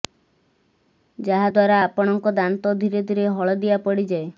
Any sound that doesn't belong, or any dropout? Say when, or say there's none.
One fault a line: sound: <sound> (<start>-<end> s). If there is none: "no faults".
no faults